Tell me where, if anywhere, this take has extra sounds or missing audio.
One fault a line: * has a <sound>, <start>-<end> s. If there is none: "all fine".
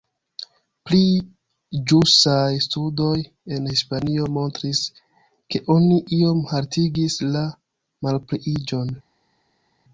all fine